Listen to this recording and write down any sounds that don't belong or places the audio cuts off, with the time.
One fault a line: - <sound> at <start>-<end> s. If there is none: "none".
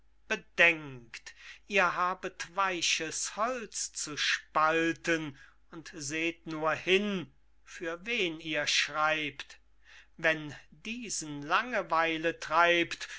none